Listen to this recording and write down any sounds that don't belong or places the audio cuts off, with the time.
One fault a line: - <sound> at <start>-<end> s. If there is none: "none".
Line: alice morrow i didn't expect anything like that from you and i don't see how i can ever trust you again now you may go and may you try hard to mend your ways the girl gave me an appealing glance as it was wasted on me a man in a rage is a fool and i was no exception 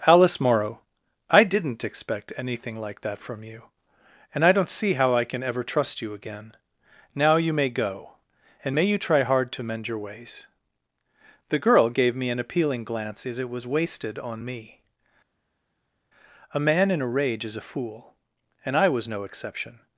none